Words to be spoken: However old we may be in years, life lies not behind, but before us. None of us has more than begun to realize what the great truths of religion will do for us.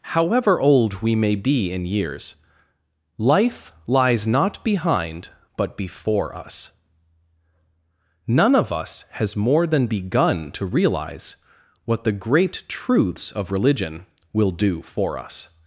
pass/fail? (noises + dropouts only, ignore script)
pass